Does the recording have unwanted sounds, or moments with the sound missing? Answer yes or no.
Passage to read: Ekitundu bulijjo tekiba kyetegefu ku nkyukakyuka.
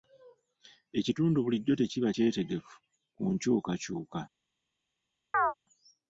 yes